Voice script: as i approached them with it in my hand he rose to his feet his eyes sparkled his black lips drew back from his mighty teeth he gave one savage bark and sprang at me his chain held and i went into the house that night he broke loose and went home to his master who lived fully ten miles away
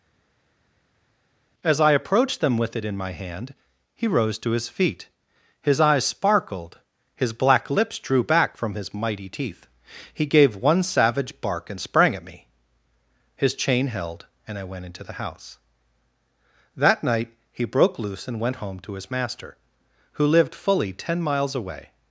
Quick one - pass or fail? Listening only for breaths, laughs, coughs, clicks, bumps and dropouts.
pass